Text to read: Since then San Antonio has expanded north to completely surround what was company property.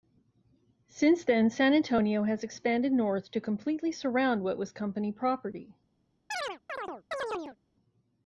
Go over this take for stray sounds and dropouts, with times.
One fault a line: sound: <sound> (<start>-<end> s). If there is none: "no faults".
sound: chirp (6.3-7.6 s)